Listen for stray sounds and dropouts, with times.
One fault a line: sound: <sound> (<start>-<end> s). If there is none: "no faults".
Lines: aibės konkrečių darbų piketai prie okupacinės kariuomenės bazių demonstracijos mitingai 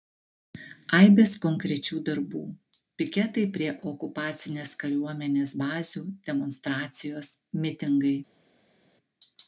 no faults